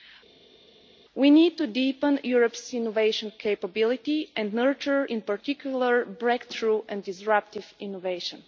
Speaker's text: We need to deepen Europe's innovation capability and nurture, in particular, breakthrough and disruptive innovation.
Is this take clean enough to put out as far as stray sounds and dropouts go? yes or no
yes